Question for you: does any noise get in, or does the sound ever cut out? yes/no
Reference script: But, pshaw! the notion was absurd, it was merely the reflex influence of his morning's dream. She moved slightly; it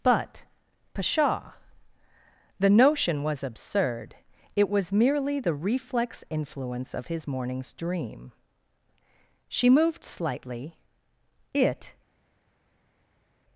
no